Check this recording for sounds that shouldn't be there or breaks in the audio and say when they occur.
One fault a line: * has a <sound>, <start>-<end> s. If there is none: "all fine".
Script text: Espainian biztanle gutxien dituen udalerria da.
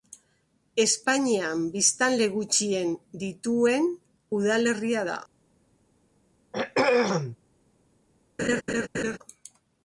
* has a throat clearing, 6.5-7.4 s
* has a laugh, 8.4-9.2 s